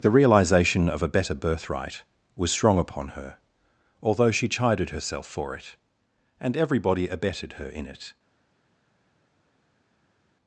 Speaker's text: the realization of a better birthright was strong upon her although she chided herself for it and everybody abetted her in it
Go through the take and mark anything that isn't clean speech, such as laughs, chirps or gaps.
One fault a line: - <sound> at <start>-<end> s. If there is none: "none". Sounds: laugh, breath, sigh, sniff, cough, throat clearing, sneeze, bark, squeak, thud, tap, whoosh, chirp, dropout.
none